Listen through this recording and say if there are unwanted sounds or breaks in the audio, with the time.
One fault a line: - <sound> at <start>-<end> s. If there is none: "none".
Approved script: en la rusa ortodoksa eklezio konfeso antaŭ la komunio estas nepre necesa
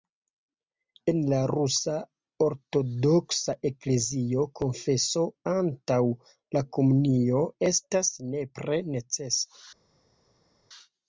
none